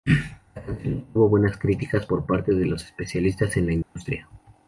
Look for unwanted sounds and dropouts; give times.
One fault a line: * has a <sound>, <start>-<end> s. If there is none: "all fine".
* has a dropout, 3.8-4.0 s